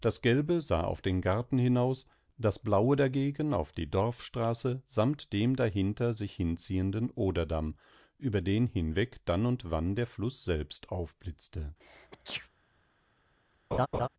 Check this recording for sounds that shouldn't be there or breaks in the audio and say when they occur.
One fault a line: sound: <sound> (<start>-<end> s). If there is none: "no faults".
sound: sneeze (11.8-12.5 s)
sound: laugh (13.7-14.1 s)